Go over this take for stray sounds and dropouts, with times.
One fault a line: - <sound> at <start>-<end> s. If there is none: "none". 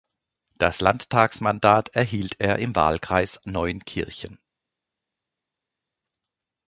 none